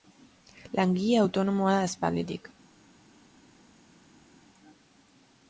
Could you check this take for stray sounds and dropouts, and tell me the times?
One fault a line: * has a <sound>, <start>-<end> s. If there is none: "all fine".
all fine